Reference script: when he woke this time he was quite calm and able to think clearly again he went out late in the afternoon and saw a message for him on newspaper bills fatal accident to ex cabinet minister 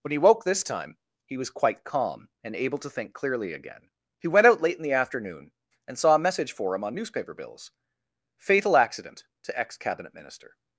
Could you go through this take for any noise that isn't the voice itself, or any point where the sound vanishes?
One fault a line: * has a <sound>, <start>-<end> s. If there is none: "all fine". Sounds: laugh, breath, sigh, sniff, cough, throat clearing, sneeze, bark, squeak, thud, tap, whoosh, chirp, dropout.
all fine